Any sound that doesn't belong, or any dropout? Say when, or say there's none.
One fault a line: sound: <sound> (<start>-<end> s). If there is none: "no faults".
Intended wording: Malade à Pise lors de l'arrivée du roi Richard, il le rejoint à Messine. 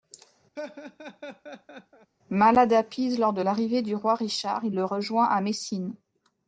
sound: laugh (0.6-2.1 s)